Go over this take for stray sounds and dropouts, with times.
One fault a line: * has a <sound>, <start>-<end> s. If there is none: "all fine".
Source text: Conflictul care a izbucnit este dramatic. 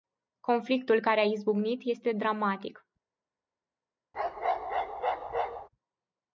* has a bark, 4.1-5.7 s